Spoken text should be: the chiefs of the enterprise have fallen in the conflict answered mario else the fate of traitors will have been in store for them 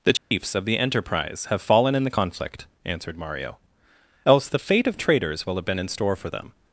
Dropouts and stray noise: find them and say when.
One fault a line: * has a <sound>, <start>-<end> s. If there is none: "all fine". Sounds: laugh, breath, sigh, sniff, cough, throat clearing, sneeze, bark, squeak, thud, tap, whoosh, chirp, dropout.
* has a dropout, 0.2-0.3 s